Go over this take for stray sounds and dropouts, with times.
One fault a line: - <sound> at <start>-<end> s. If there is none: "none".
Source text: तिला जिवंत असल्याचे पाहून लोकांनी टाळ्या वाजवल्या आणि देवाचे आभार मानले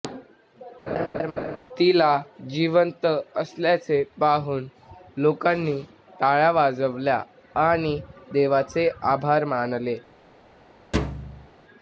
- laugh at 0.9-1.6 s
- thud at 10.9-11.5 s